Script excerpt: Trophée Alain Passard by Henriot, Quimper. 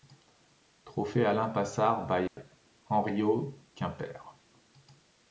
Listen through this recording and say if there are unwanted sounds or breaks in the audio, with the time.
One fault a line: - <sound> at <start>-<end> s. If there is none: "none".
- dropout at 2.3-2.4 s